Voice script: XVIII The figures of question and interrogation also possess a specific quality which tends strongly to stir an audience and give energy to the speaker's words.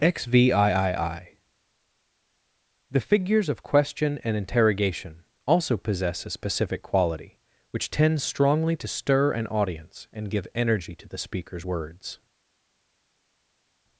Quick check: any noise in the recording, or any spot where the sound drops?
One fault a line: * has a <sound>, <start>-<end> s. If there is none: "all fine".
all fine